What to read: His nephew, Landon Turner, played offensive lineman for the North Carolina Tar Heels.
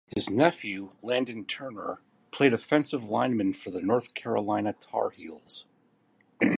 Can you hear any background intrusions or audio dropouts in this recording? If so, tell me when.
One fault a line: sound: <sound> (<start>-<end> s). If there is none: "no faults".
no faults